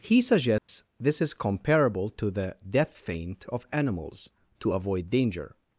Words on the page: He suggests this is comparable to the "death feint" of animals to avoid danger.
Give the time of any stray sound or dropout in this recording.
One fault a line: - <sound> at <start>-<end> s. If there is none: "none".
- dropout at 0.6-0.7 s